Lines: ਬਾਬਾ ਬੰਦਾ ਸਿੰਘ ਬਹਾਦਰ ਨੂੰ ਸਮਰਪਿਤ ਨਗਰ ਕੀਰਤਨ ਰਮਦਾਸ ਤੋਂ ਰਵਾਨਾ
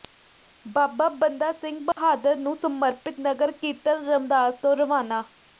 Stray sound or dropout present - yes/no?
yes